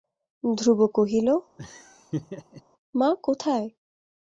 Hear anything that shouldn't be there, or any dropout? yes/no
yes